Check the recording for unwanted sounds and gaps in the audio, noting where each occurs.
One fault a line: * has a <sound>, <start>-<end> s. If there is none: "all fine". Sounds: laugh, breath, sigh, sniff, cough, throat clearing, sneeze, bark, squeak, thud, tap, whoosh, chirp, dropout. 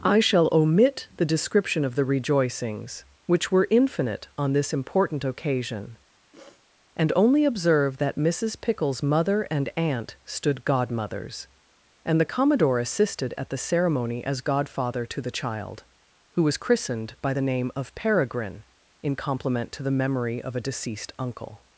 * has a sniff, 6.3-6.7 s